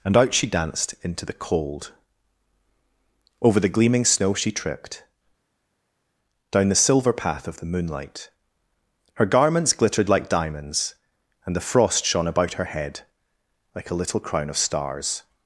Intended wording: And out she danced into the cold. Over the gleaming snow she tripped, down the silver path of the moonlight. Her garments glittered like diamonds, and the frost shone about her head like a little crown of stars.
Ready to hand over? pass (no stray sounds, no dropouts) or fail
pass